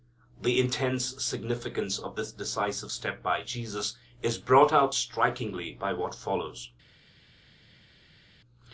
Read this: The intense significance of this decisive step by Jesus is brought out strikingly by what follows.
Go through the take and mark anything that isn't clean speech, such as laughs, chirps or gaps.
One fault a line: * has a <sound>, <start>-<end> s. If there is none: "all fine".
all fine